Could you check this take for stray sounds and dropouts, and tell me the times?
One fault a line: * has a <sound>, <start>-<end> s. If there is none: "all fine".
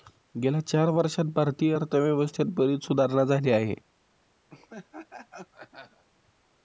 * has a laugh, 4.5-6.0 s